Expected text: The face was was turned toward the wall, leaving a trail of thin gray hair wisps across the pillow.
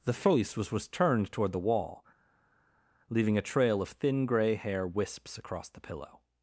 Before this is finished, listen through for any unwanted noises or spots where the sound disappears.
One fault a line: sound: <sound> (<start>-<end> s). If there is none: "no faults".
no faults